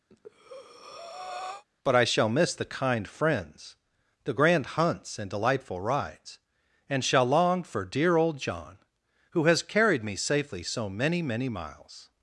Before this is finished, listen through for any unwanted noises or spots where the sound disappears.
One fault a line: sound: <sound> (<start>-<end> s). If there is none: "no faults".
sound: breath (0.1-1.6 s)